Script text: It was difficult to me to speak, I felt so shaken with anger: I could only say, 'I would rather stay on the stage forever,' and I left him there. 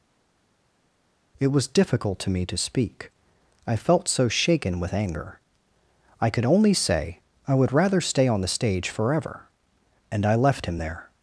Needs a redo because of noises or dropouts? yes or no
no